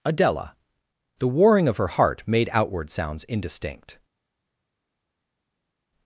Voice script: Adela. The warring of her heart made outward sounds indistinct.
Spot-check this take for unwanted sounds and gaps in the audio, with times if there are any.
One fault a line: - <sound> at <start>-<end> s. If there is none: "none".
none